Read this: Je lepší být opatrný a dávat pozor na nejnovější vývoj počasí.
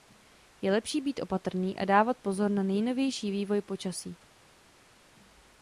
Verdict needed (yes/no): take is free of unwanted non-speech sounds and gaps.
yes